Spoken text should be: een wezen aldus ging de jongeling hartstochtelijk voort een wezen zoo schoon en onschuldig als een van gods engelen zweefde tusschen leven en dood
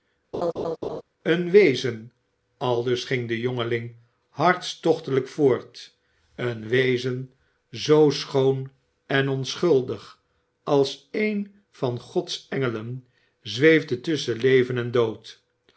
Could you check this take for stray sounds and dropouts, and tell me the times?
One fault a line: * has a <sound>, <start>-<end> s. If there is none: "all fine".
* has a laugh, 0.3-1.0 s